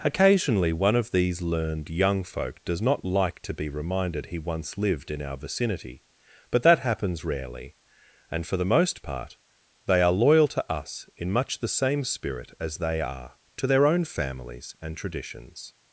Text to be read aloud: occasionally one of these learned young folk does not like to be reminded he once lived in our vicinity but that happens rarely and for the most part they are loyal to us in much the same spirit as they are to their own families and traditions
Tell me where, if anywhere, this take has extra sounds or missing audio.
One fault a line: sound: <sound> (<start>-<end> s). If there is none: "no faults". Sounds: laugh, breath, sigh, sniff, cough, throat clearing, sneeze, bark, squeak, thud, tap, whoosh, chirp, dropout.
no faults